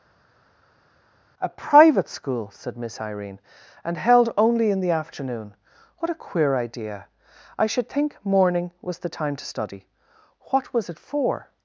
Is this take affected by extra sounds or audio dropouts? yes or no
no